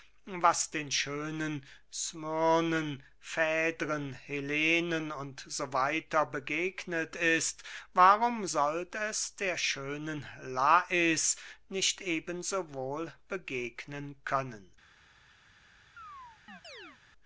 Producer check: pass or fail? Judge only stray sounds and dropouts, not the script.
fail